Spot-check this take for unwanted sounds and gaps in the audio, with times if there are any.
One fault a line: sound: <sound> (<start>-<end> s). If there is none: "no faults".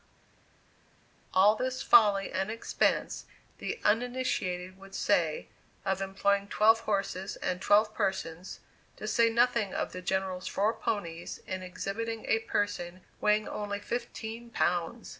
no faults